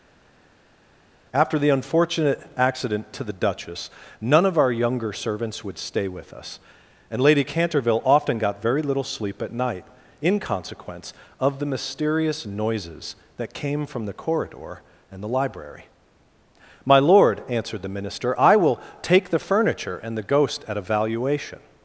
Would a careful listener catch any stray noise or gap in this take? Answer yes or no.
no